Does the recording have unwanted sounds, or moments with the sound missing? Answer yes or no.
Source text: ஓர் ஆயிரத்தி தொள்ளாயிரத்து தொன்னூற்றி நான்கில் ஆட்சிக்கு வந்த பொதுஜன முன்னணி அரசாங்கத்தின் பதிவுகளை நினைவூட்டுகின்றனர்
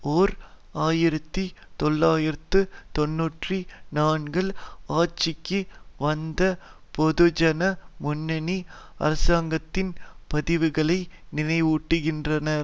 no